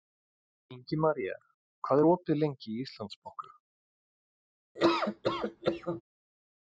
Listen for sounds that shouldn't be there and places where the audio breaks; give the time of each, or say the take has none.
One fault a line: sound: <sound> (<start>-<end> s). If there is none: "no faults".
sound: laugh (4.8-6.0 s)